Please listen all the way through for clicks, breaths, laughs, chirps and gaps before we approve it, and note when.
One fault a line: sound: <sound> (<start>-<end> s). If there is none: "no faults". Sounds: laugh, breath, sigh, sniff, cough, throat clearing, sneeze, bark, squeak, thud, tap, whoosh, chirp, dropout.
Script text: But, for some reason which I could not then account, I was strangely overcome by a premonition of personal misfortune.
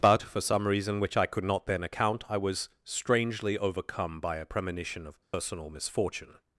sound: dropout (5.2-5.3 s)